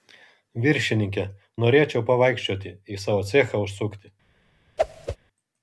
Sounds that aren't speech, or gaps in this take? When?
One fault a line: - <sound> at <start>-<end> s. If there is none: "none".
- whoosh at 4.8-5.2 s